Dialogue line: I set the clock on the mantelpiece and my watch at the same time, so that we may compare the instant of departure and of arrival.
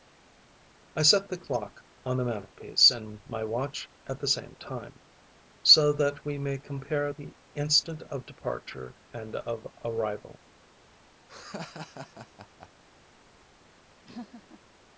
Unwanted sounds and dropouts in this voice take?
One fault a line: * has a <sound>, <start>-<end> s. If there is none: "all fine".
* has a laugh, 11.3-12.7 s
* has a laugh, 14.0-14.6 s